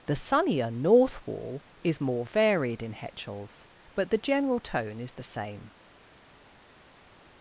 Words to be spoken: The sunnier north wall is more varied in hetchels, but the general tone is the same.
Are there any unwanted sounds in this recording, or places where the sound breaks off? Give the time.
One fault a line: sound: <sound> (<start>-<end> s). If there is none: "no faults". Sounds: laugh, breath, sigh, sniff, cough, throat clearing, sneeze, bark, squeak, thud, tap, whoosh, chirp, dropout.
no faults